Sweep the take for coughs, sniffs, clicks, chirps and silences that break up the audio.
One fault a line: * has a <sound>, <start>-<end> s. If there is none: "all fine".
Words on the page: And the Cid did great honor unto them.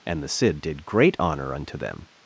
all fine